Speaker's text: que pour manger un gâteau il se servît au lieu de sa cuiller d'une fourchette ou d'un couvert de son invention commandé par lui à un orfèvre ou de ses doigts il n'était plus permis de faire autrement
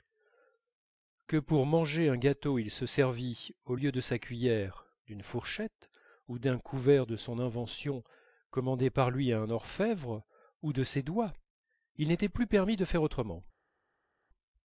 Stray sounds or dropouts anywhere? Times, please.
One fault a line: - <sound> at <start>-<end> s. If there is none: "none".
none